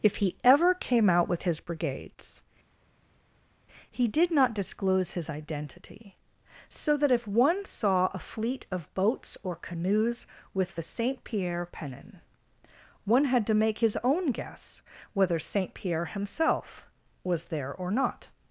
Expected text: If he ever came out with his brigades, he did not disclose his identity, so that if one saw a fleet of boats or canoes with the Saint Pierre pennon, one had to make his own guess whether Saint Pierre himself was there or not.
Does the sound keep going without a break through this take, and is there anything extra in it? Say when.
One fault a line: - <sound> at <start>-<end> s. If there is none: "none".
none